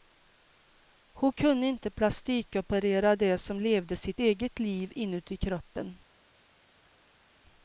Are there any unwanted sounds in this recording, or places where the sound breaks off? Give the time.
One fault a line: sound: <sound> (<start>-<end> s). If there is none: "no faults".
no faults